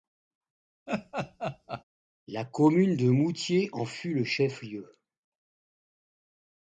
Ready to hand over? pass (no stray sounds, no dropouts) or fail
fail